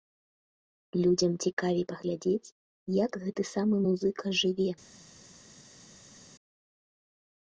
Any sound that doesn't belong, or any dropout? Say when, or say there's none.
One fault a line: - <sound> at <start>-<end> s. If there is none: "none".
none